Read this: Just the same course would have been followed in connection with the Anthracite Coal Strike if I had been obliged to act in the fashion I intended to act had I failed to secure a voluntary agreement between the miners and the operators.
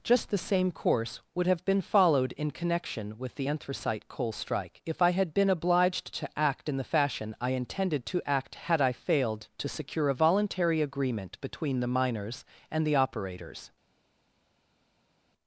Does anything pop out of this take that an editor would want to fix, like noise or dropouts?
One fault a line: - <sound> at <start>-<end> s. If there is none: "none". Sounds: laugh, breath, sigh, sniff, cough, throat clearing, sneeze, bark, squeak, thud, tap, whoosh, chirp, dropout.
none